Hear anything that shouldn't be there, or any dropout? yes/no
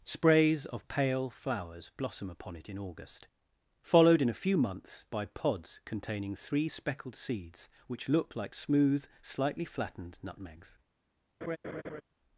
yes